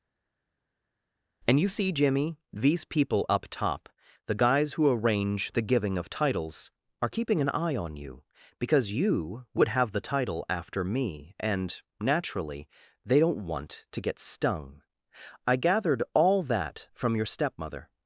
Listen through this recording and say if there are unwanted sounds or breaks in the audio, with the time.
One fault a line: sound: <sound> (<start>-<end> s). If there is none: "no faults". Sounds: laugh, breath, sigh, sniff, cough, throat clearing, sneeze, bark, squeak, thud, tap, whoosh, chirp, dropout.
no faults